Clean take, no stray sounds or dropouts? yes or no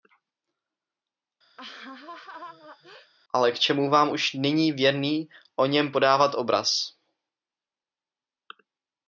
no